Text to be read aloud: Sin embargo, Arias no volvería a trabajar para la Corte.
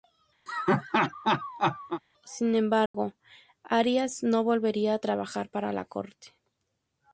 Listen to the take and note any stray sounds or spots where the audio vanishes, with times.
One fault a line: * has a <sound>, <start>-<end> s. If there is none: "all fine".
* has a laugh, 0.5-2.0 s
* has a dropout, 2.9-2.9 s